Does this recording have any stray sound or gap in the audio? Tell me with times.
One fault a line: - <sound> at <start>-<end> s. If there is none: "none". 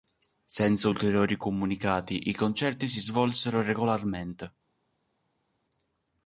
none